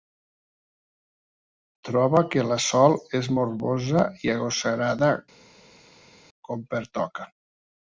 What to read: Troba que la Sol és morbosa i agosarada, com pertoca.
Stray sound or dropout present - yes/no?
no